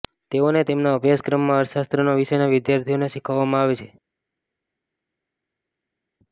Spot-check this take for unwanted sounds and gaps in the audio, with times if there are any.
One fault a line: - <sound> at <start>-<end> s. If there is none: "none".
none